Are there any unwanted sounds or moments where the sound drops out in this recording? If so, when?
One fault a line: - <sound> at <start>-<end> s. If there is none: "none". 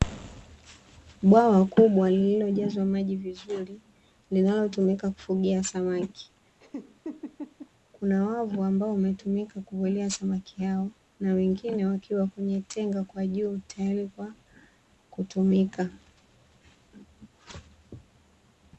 - laugh at 6.6-7.7 s